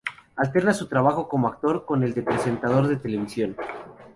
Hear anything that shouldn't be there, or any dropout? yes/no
no